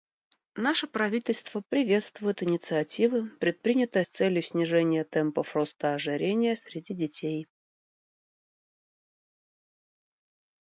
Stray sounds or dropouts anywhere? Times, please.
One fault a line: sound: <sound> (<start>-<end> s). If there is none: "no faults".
no faults